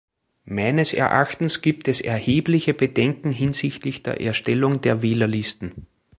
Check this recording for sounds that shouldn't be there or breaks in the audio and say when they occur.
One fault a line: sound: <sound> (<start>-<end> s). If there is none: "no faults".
no faults